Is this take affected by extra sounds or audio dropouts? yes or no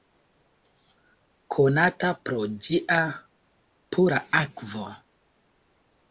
no